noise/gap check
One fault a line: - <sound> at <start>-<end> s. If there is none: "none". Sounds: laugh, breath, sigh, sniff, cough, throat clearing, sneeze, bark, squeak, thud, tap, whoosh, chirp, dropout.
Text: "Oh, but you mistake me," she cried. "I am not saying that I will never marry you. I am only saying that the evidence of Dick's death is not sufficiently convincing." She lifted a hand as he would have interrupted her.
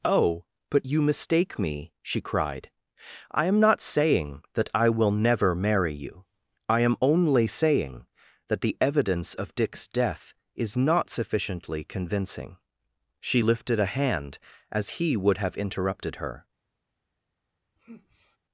- sigh at 17.8-18.4 s